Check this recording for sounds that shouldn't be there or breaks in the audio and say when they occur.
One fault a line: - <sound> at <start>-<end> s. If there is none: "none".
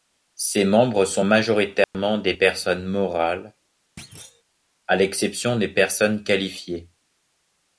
- dropout at 1.8-1.9 s
- thud at 4.0-4.4 s